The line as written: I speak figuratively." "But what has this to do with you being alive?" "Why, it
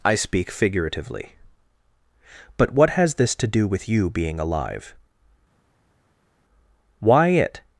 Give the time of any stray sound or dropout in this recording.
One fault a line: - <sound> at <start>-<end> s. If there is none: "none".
none